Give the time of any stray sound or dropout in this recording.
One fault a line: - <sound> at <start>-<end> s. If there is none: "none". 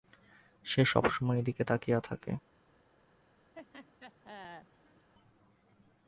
- laugh at 3.5-5.1 s